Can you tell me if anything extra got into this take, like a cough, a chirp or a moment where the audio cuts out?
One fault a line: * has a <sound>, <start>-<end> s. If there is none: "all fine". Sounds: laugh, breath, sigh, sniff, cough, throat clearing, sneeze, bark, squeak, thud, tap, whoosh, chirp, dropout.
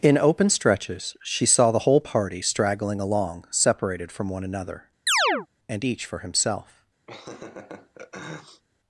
* has a chirp, 5.1-5.5 s
* has a laugh, 7.1-8.6 s